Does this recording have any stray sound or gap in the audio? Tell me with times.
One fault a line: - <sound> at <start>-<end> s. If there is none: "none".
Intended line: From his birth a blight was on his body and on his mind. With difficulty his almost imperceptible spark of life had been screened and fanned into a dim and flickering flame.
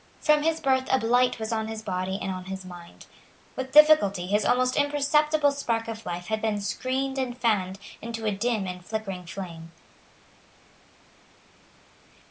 none